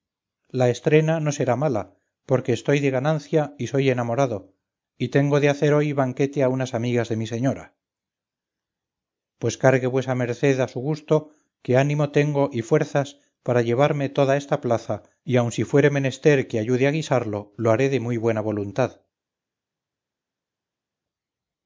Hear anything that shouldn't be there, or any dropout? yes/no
no